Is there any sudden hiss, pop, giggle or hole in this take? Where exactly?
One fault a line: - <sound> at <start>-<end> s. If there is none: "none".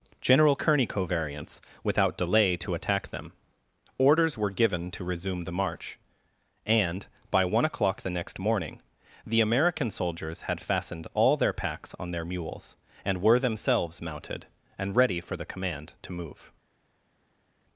none